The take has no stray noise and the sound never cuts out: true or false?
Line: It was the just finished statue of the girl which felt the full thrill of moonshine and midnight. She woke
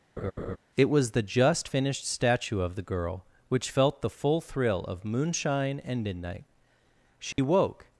false